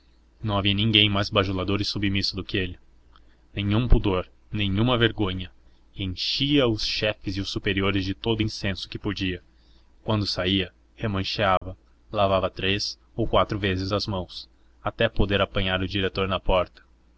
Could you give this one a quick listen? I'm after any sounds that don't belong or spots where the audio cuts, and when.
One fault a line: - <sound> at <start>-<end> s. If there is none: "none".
- dropout at 11.6-11.6 s